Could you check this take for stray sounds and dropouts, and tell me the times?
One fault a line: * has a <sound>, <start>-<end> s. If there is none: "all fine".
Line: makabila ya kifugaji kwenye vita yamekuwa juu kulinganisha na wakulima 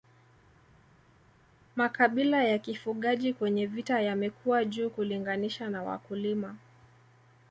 all fine